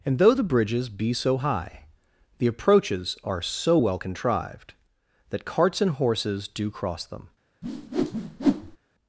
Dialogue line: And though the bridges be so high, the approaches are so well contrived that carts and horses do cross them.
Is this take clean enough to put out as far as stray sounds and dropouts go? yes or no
no